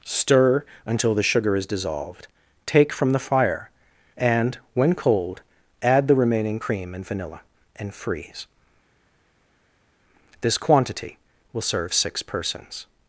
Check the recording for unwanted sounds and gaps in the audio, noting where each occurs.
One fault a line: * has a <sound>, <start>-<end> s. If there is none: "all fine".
all fine